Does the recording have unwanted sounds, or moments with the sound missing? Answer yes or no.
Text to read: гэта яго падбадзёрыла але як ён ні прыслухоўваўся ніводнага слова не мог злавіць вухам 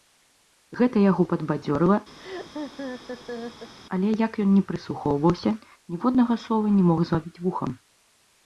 yes